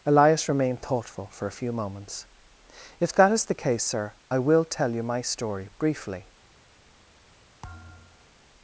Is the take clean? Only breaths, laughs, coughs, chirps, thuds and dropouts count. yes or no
no